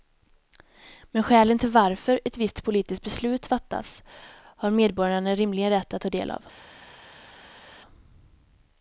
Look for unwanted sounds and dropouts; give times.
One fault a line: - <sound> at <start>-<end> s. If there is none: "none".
none